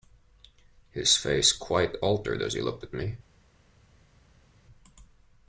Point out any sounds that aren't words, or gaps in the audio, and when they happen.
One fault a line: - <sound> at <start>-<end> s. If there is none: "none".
none